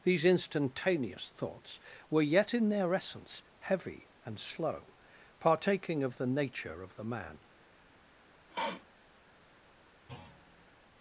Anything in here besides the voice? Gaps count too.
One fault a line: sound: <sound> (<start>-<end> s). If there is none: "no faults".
sound: sniff (8.5-8.9 s)
sound: thud (10.1-10.8 s)